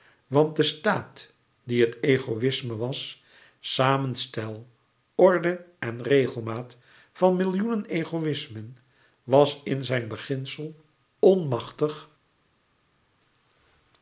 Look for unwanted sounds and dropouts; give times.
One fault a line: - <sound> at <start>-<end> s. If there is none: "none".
none